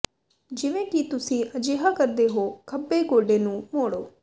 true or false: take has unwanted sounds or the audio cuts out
false